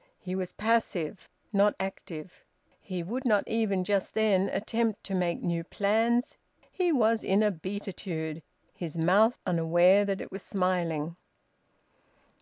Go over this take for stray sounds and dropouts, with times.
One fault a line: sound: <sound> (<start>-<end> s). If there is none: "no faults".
no faults